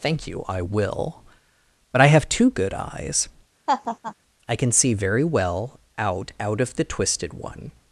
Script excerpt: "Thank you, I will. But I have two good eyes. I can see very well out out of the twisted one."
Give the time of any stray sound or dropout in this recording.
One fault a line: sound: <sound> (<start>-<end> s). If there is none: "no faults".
sound: laugh (3.7-4.1 s)